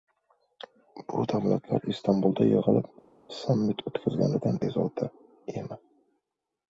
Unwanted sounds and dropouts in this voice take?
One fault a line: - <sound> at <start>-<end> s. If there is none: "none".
none